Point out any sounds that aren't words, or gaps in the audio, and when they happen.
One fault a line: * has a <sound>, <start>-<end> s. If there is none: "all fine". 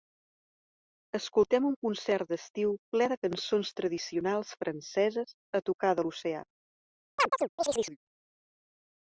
* has a chirp, 7.2-8.0 s